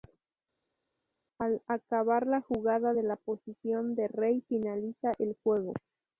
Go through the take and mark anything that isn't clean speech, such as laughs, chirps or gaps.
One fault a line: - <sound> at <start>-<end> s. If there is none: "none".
none